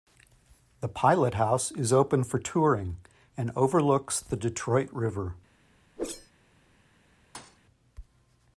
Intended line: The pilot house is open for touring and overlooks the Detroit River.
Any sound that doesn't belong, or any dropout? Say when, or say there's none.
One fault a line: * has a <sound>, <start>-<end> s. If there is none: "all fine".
* has a whoosh, 6.0-6.3 s
* has a thud, 7.3-7.6 s